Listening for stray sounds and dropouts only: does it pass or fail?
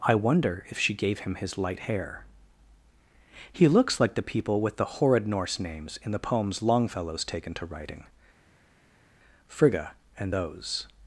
pass